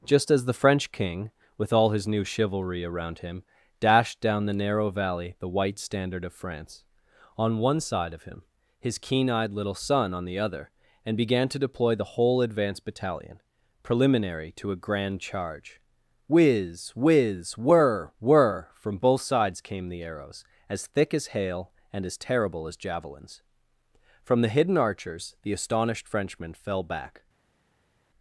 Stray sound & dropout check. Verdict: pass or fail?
pass